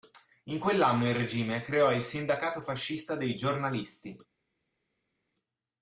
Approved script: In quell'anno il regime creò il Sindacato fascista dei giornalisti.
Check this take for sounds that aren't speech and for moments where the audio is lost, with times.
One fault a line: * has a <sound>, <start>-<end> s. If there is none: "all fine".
all fine